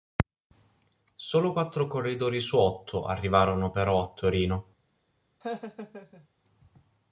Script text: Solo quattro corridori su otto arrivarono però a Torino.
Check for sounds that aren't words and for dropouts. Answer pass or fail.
fail